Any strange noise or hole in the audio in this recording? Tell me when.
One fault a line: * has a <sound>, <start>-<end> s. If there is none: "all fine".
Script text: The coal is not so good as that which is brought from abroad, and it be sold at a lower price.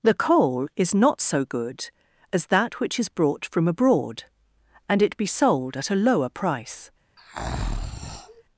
* has a breath, 7.2-8.4 s